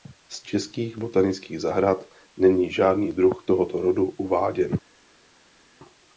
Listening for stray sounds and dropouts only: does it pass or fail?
pass